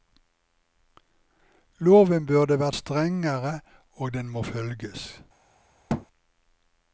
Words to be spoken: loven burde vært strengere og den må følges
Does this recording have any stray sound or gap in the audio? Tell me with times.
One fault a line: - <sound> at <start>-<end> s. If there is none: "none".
- thud at 5.9-6.1 s